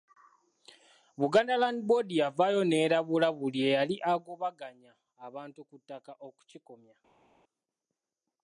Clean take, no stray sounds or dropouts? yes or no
yes